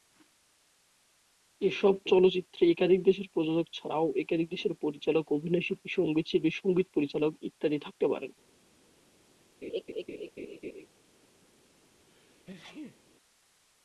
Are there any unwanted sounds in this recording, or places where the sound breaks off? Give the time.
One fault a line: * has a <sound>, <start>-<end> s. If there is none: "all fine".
* has a laugh, 9.6-10.9 s
* has a sneeze, 12.0-13.0 s